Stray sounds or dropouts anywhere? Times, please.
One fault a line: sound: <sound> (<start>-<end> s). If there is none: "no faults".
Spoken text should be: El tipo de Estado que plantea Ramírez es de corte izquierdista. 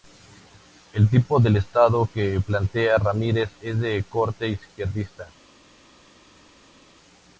no faults